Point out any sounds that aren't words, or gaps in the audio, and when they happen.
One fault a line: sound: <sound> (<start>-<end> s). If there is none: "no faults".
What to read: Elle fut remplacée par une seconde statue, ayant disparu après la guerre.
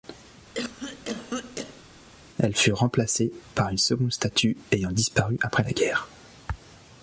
sound: cough (0.5-1.8 s)